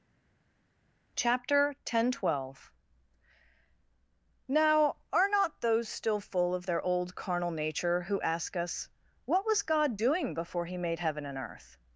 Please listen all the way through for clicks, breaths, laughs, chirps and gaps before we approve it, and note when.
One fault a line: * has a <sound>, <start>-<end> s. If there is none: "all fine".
all fine